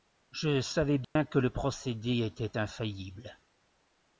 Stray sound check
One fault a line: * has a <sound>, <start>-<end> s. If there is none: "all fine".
* has a dropout, 1.0-1.2 s